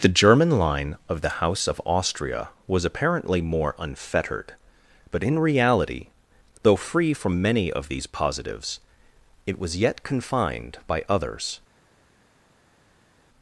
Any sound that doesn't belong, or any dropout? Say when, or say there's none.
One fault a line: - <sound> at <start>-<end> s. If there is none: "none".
none